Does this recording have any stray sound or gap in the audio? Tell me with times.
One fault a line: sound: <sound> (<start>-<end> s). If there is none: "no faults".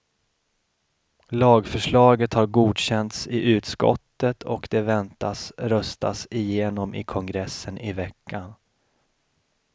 no faults